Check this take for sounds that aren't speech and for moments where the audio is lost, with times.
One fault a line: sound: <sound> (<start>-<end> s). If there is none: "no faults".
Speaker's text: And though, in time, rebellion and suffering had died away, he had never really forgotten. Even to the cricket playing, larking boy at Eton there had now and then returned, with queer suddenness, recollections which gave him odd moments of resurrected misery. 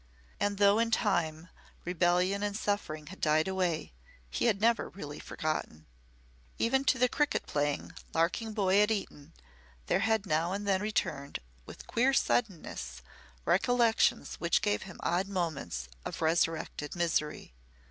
no faults